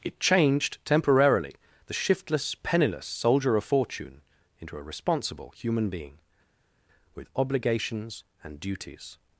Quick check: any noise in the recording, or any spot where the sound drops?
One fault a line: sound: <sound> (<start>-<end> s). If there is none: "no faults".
no faults